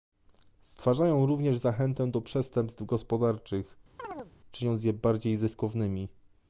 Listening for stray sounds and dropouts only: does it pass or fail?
fail